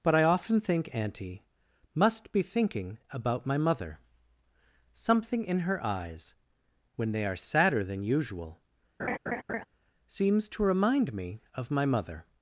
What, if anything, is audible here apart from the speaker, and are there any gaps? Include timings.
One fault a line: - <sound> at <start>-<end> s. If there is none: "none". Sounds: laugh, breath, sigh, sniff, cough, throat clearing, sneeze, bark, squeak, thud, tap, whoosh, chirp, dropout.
- laugh at 9.0-9.6 s